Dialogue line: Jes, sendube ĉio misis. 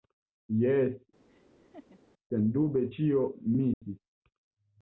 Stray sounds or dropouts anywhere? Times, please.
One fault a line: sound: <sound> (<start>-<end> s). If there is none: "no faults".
sound: laugh (1.3-2.0 s)
sound: dropout (3.7-3.8 s)